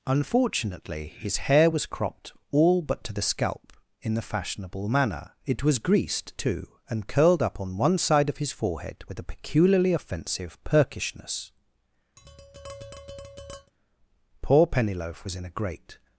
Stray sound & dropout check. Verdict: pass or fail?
fail